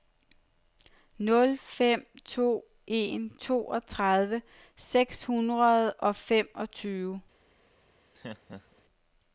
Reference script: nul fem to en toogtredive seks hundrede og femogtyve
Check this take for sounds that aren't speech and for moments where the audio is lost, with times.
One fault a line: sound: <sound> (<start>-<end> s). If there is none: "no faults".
sound: laugh (8.1-8.8 s)